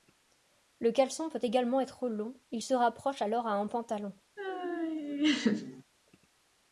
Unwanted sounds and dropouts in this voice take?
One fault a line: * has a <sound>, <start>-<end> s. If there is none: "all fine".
* has a laugh, 4.4-5.8 s